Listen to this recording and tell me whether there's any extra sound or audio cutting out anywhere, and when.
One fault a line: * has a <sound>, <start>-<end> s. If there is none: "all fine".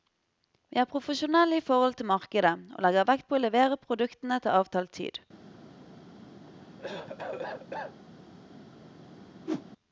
* has a cough, 6.5-8.0 s
* has a whoosh, 9.5-9.7 s